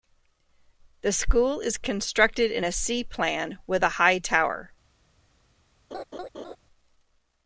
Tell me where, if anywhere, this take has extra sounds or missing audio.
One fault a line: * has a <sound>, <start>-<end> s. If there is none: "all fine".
* has a laugh, 5.9-6.6 s